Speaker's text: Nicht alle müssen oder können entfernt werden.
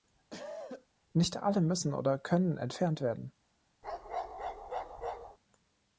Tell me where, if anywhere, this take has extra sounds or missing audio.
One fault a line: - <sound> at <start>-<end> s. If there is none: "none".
- cough at 0.3-0.9 s
- bark at 3.8-5.4 s